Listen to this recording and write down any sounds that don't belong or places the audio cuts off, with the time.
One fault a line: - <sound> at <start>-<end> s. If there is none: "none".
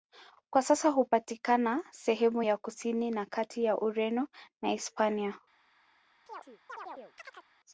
- chirp at 6.3-7.5 s